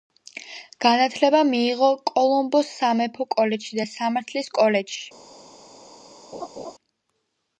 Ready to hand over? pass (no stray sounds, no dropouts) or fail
fail